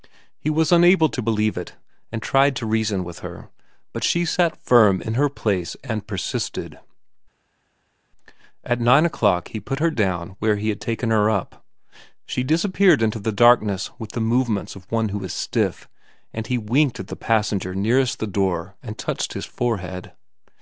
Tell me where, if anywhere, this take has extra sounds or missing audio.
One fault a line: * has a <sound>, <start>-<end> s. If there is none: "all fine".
all fine